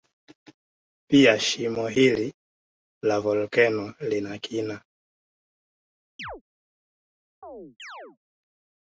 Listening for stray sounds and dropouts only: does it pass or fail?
fail